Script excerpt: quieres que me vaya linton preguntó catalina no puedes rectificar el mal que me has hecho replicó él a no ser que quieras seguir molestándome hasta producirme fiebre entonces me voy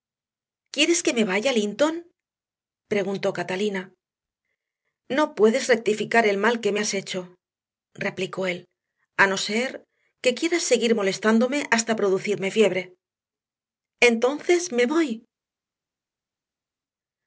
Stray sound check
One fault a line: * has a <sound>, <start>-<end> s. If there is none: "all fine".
all fine